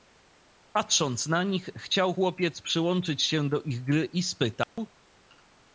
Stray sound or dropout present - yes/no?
yes